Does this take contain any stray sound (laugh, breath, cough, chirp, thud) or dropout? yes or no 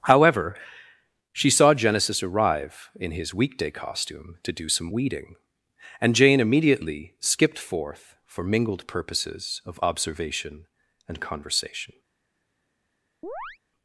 yes